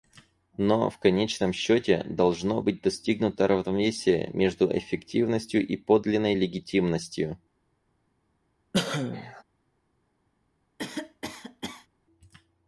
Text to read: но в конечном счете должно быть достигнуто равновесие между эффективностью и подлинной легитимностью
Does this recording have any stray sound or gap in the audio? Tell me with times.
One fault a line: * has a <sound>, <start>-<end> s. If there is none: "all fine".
* has a cough, 8.7-9.4 s
* has a cough, 10.8-11.9 s